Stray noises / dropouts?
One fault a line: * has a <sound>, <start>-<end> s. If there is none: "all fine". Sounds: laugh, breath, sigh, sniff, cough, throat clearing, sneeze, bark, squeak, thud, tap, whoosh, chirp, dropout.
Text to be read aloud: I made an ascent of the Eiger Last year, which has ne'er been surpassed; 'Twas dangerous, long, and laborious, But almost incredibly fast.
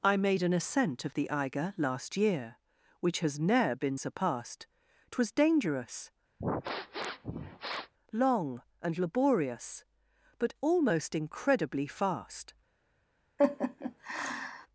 * has a sniff, 6.4-7.9 s
* has a laugh, 13.4-14.7 s